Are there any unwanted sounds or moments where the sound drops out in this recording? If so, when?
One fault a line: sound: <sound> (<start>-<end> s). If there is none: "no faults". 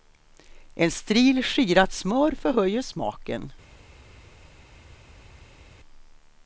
no faults